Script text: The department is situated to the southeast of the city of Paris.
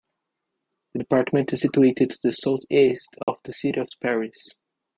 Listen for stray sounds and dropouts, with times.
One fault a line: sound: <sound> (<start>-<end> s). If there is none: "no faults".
sound: dropout (3.2-3.3 s)